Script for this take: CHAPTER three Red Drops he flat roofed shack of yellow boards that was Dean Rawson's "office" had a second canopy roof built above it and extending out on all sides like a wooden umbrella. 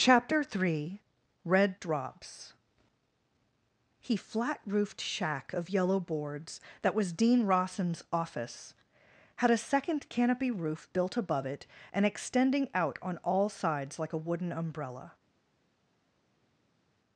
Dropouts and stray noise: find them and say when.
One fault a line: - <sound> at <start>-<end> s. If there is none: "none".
none